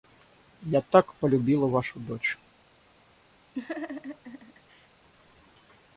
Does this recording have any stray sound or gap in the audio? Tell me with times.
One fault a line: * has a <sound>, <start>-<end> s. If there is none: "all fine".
* has a laugh, 3.5-4.9 s